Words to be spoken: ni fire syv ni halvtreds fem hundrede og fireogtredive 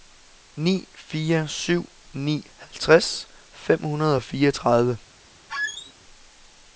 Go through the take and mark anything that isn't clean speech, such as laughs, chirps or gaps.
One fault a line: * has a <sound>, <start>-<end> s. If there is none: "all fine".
* has a squeak, 5.5-5.9 s